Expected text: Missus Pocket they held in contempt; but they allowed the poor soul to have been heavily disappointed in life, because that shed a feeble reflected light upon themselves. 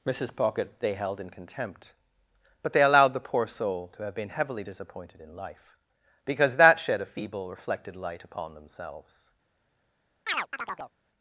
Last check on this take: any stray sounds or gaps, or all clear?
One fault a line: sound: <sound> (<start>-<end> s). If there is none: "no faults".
sound: chirp (10.3-10.9 s)